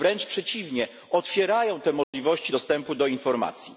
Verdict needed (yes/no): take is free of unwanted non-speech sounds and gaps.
no